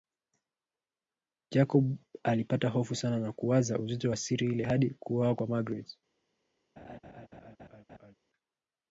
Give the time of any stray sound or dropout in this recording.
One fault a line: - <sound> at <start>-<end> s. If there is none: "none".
- laugh at 6.8-8.1 s